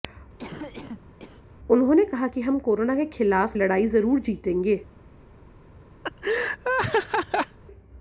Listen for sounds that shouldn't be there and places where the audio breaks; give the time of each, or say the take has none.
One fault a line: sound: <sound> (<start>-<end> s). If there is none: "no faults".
sound: cough (0.4-1.5 s)
sound: laugh (6.0-7.6 s)